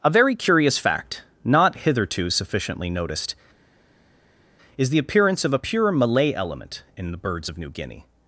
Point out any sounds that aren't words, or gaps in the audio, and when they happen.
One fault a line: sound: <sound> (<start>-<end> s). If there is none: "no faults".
no faults